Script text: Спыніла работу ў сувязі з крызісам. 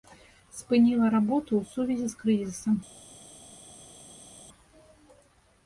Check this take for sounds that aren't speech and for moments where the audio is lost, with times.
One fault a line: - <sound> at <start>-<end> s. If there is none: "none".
none